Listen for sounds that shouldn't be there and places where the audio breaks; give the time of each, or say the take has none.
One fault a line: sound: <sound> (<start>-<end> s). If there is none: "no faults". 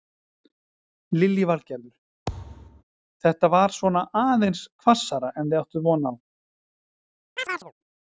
sound: thud (2.3-2.8 s)
sound: chirp (7.4-7.7 s)